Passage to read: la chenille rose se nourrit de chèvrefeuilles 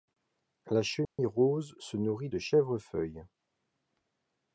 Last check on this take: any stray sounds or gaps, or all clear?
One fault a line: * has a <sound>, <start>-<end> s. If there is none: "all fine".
* has a dropout, 1.0-1.2 s